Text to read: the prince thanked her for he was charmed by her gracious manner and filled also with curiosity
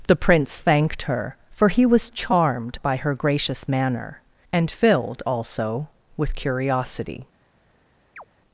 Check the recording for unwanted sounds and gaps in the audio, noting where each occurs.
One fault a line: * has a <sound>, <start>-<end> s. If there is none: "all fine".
* has a chirp, 8.2-8.2 s